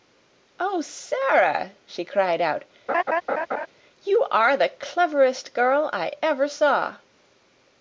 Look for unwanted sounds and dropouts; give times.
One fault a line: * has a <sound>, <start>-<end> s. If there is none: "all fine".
* has a laugh, 2.9-3.7 s